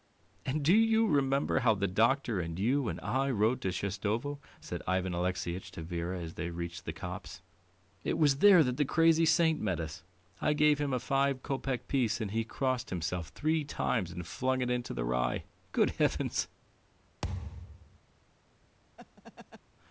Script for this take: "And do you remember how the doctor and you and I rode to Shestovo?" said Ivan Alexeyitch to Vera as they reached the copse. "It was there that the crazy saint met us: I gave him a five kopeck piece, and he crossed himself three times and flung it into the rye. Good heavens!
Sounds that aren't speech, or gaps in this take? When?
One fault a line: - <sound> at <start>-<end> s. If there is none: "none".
- thud at 17.2-18.0 s
- laugh at 19.0-19.6 s